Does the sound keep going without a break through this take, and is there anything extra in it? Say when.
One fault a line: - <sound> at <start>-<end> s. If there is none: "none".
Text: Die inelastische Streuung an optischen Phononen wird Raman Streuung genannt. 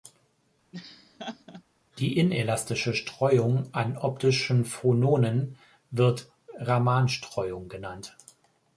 - laugh at 0.7-1.6 s